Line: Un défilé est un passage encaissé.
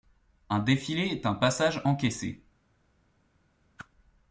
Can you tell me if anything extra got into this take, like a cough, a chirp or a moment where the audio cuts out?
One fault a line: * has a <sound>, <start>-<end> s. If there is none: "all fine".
* has a whoosh, 3.8-3.9 s